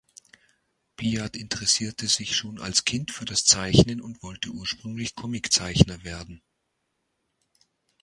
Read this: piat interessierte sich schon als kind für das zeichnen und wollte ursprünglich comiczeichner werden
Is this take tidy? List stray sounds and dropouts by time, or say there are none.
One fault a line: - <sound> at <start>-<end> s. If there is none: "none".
none